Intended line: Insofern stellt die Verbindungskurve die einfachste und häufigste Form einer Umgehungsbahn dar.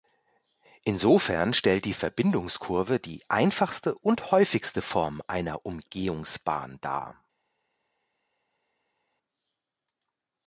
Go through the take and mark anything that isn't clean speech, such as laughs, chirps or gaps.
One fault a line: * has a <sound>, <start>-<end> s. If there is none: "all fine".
all fine